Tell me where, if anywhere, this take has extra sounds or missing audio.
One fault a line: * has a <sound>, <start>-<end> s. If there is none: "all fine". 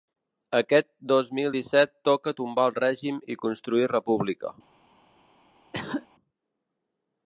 * has a cough, 5.7-6.1 s